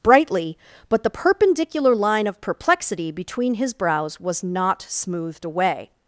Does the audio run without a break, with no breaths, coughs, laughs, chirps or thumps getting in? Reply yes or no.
yes